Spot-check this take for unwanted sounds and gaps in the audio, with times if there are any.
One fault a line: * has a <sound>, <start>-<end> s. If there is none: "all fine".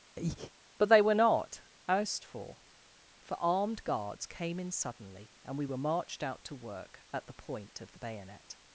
* has a breath, 0.2-0.5 s